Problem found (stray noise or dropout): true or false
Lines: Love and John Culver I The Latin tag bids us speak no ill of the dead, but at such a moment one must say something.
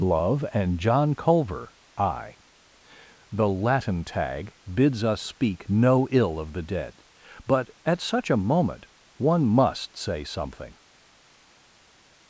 false